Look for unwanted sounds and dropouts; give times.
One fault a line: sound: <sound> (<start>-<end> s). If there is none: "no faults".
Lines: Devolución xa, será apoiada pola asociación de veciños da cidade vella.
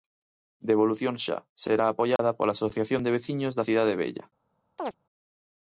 sound: dropout (2.2-2.2 s)
sound: chirp (4.8-4.9 s)